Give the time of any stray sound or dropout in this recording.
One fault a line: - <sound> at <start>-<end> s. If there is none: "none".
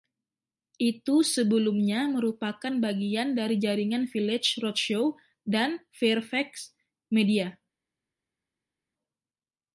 none